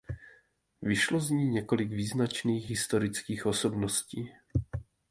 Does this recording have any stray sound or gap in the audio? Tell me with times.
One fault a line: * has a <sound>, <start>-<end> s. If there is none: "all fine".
all fine